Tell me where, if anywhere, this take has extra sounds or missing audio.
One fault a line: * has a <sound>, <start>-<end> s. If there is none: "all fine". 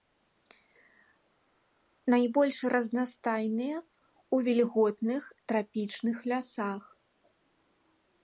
all fine